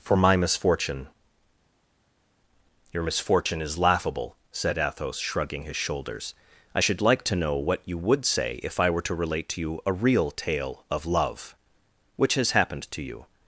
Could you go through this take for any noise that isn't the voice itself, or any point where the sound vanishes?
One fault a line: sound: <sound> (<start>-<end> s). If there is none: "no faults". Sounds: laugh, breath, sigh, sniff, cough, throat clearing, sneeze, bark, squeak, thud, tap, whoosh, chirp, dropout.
no faults